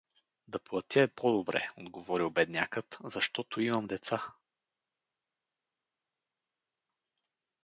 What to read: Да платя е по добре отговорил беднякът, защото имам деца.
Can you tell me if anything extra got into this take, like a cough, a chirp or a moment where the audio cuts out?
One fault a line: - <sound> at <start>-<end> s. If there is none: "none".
none